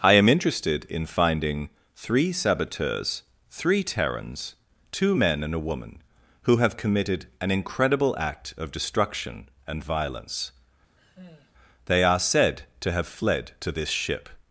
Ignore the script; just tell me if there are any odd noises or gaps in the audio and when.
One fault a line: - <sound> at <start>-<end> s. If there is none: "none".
- sigh at 11.0-11.5 s